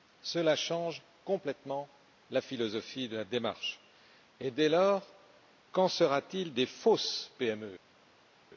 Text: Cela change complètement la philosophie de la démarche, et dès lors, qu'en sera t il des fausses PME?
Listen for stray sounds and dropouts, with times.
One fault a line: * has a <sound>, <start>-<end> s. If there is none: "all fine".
all fine